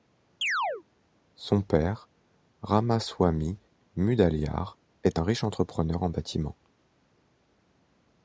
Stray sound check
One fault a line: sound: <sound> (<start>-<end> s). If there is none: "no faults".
sound: chirp (0.4-0.8 s)